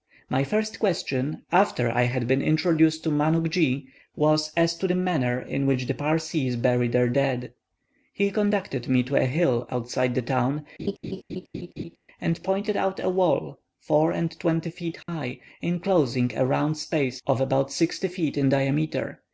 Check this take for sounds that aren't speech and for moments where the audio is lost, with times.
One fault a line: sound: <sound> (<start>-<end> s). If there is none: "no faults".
sound: laugh (10.8-12.0 s)
sound: dropout (15.0-15.1 s)